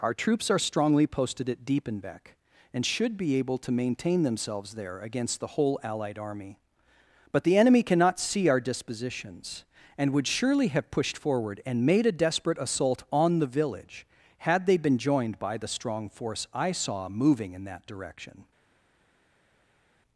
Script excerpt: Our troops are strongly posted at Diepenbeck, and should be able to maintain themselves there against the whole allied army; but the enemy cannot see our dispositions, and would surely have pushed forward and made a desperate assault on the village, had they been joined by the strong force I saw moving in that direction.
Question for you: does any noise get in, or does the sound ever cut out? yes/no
no